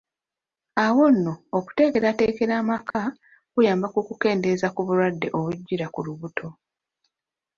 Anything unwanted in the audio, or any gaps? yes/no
yes